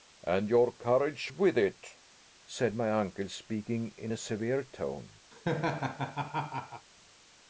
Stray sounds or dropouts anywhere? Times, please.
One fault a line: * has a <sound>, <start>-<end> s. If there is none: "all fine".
* has a laugh, 5.3-6.9 s